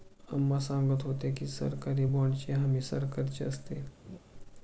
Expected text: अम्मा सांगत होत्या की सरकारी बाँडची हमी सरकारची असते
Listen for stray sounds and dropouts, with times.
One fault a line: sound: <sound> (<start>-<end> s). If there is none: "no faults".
sound: laugh (4.0-4.2 s)